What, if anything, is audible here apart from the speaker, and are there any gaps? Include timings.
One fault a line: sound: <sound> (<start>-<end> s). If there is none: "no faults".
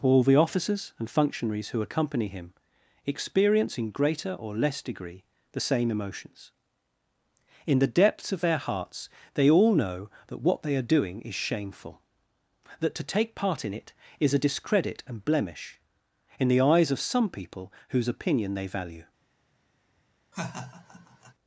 sound: laugh (20.3-21.3 s)